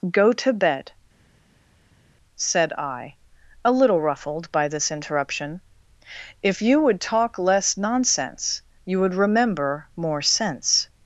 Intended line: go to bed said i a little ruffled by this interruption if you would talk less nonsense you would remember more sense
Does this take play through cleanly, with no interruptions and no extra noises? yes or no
yes